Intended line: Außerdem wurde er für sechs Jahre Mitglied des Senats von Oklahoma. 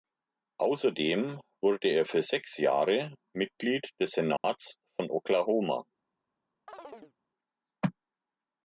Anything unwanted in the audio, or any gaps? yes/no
yes